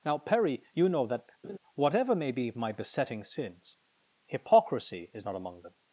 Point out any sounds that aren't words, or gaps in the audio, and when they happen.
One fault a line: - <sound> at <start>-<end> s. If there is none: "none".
- laugh at 1.4-1.6 s